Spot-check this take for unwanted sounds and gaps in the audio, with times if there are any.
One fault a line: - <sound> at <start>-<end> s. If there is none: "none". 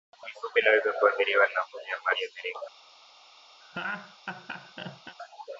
- laugh at 3.6-5.2 s